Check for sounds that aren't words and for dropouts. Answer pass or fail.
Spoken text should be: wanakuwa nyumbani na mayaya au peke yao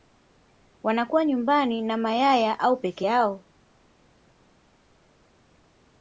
pass